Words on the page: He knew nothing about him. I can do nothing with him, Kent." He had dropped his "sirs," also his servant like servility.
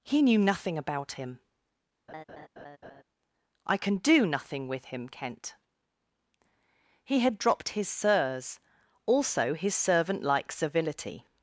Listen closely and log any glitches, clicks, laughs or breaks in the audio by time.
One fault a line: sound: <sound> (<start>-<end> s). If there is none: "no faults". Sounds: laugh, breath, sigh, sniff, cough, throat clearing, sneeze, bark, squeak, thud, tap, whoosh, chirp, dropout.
sound: laugh (2.1-3.0 s)